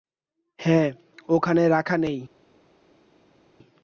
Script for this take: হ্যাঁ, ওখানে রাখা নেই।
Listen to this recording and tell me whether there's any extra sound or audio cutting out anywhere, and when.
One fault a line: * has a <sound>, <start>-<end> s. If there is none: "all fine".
all fine